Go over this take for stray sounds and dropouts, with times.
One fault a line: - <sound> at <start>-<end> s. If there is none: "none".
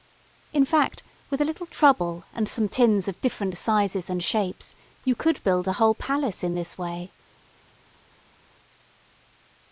none